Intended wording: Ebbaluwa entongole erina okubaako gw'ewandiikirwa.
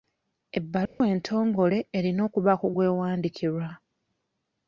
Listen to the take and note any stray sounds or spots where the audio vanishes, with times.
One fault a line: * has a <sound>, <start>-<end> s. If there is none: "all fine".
* has a dropout, 0.9-1.0 s